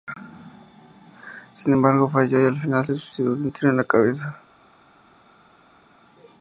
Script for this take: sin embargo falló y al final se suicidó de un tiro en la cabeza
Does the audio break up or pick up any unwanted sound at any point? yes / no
no